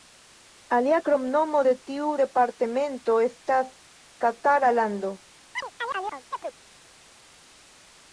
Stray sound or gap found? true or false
true